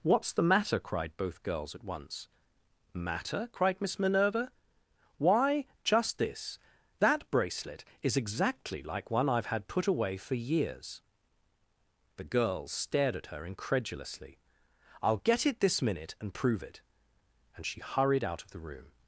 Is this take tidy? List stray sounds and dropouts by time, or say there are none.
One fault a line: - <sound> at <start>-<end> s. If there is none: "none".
none